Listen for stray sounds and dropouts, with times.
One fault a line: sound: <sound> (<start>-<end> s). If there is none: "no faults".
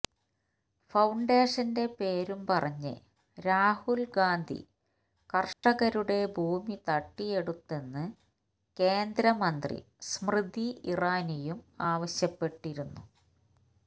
sound: dropout (5.5-5.6 s)